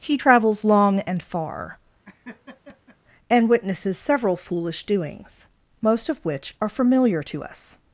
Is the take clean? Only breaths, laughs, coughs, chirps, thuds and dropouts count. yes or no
no